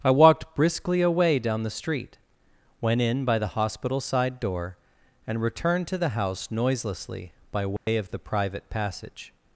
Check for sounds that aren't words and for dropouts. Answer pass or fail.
fail